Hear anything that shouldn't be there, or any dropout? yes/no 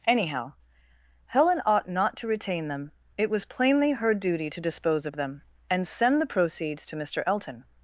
no